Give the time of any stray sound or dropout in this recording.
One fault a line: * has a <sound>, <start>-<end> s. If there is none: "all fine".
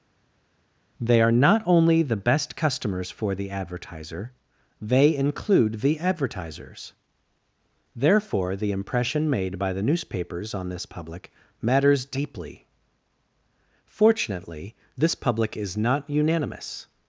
all fine